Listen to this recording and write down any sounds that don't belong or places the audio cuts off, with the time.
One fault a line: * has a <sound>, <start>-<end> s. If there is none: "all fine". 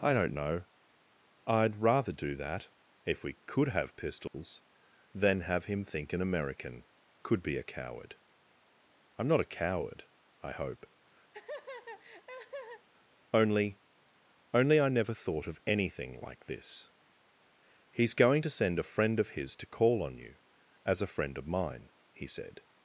* has a dropout, 4.3-4.3 s
* has a laugh, 11.3-12.9 s